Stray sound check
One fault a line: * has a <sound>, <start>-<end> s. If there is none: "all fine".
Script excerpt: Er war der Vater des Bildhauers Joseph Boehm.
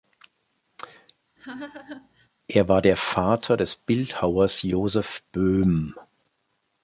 * has a laugh, 1.4-2.3 s